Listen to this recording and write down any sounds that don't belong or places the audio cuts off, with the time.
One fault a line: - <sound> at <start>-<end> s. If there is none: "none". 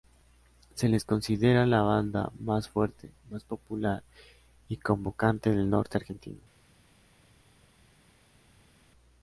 none